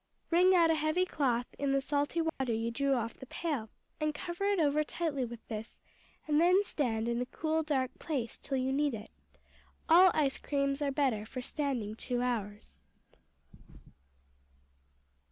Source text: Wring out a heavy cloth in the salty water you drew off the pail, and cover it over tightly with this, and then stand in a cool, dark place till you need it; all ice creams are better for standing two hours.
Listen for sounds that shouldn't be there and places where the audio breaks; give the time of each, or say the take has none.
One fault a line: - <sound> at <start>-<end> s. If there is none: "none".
- dropout at 2.3-2.4 s